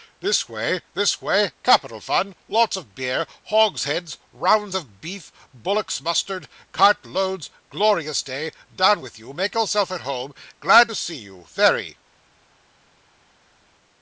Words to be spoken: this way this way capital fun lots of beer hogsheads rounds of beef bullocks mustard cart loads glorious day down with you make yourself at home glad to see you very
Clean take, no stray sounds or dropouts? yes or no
yes